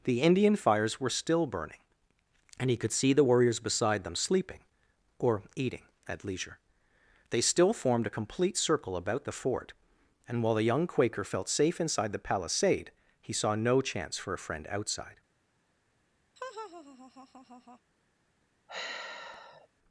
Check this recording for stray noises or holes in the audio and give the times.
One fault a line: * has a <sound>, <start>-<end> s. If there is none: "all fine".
* has a laugh, 16.4-17.8 s
* has a sigh, 18.7-19.7 s